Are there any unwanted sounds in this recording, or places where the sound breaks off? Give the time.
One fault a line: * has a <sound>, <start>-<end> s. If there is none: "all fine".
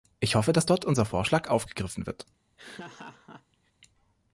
* has a laugh, 2.6-3.7 s